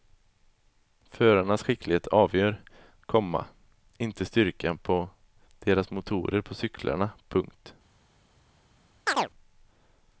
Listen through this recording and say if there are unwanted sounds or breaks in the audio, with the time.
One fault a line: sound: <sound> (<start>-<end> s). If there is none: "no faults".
sound: chirp (9.1-9.3 s)